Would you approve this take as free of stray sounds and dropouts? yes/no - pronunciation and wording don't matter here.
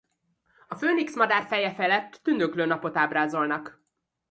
yes